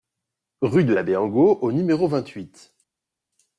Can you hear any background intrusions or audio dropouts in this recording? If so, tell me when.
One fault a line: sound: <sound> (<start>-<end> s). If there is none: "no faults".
no faults